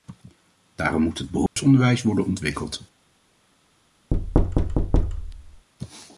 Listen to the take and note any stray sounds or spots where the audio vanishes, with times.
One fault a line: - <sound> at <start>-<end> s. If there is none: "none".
- dropout at 1.5-1.6 s
- thud at 4.1-5.7 s